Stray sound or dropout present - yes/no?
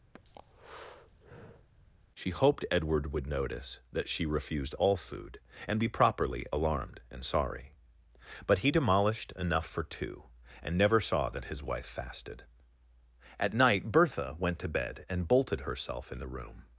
yes